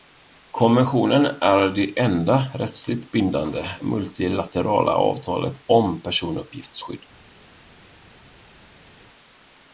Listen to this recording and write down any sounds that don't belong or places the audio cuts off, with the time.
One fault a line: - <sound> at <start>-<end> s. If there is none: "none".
none